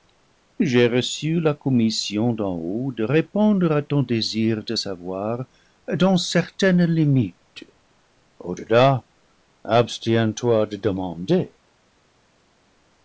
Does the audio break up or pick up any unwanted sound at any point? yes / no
no